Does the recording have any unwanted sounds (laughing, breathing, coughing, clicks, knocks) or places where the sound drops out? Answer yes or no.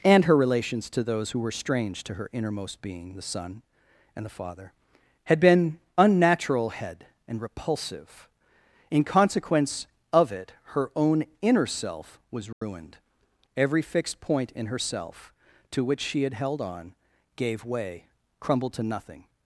yes